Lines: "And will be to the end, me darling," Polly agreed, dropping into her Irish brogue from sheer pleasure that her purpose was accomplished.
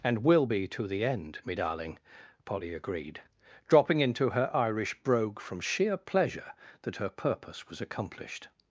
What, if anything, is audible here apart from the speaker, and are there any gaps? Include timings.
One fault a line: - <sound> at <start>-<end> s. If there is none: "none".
none